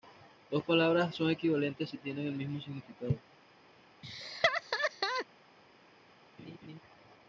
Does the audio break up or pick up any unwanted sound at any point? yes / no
yes